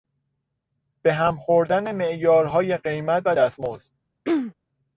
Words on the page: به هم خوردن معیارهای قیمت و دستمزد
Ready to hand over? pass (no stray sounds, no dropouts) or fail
fail